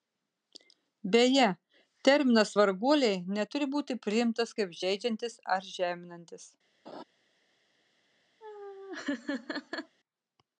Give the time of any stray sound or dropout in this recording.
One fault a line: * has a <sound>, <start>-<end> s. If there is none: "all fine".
* has a laugh, 6.9-7.0 s
* has a laugh, 8.4-10.0 s